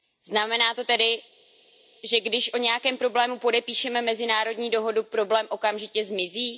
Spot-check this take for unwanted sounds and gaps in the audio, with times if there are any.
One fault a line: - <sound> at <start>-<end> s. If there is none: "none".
none